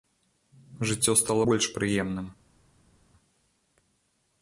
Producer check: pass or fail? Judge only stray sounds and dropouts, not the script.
pass